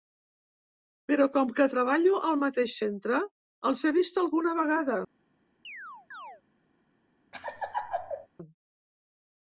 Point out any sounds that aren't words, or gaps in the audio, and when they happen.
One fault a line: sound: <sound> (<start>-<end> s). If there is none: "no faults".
sound: chirp (5.6-6.4 s)
sound: laugh (7.3-8.3 s)